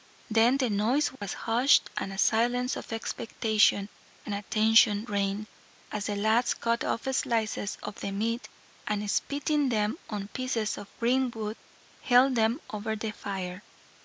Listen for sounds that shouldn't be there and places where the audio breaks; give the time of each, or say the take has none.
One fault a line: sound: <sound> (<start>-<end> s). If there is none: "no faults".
sound: dropout (1.2-1.2 s)